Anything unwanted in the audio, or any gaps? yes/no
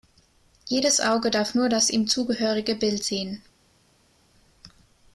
no